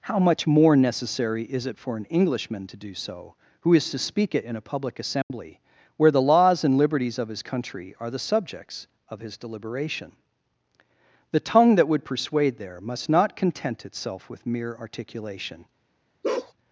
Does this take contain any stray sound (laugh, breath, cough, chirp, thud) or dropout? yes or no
yes